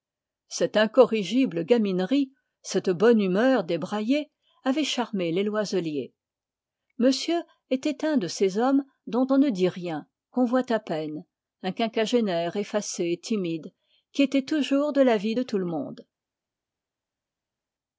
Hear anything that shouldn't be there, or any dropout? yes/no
no